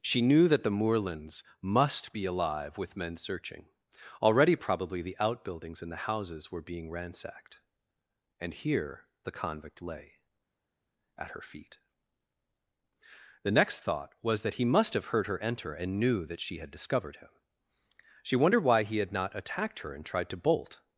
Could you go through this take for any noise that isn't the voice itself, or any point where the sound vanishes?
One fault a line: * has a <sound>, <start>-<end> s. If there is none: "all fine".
all fine